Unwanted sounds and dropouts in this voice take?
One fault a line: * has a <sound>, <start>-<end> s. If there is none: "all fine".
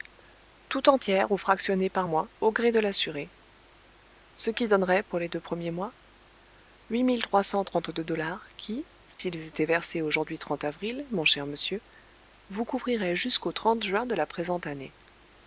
* has a dropout, 9.1-9.2 s